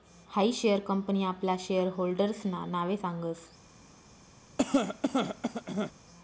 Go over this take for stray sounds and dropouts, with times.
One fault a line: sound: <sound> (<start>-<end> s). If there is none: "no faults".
sound: cough (4.6-5.9 s)